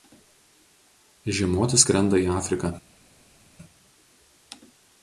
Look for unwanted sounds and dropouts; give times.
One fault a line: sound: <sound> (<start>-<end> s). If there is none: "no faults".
no faults